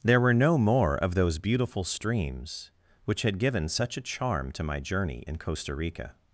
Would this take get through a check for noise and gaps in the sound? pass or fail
pass